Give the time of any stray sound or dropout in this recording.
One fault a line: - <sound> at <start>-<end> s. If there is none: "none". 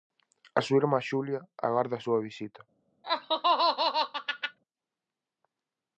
- laugh at 3.0-4.6 s